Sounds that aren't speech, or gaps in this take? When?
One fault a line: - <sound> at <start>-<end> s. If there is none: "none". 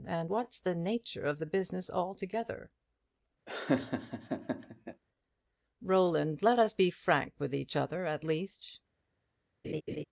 - laugh at 3.5-5.0 s
- laugh at 9.6-10.0 s